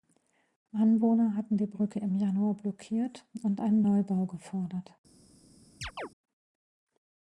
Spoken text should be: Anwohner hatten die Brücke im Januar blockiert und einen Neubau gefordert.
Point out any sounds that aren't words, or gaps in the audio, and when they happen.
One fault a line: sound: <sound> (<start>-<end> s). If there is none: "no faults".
sound: chirp (5.8-6.1 s)